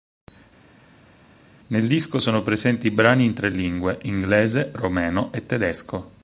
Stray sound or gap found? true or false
false